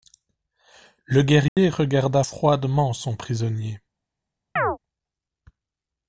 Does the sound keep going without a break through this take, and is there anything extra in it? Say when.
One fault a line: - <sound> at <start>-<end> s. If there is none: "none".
- dropout at 1.5-1.6 s
- chirp at 4.6-4.8 s